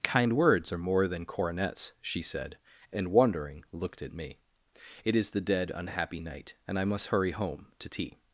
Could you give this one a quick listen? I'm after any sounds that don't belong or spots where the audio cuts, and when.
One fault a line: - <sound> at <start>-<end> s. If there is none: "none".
none